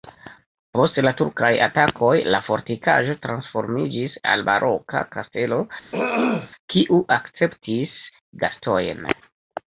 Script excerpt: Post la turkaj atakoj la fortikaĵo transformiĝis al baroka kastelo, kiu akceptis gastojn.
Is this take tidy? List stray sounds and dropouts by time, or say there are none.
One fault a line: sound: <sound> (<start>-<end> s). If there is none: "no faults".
sound: throat clearing (5.9-6.5 s)